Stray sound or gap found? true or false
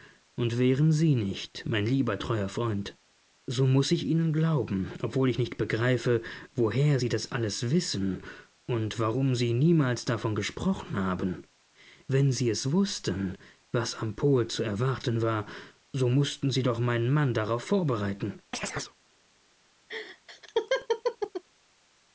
true